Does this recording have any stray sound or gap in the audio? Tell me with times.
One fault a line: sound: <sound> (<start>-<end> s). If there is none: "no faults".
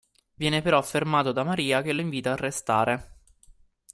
no faults